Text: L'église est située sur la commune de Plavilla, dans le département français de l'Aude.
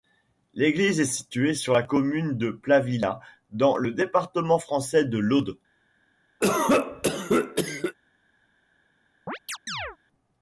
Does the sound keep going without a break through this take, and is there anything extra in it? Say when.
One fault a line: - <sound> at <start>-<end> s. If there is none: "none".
- cough at 6.4-8.0 s
- chirp at 9.3-10.0 s